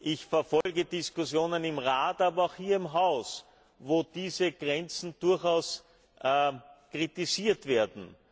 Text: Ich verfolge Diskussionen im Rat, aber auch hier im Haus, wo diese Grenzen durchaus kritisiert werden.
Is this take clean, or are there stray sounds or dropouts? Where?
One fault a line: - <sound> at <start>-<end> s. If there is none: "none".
- dropout at 0.6-0.7 s